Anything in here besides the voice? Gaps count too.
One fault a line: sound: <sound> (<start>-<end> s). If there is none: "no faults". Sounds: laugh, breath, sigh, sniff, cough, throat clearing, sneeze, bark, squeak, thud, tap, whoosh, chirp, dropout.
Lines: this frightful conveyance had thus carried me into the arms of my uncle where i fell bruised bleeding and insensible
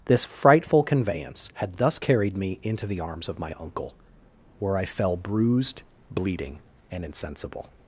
no faults